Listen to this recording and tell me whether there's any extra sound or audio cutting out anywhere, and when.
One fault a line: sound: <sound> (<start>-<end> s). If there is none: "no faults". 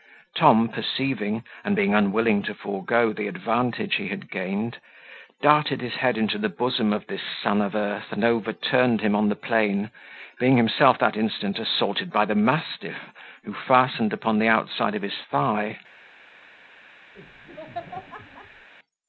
sound: laugh (17.1-18.7 s)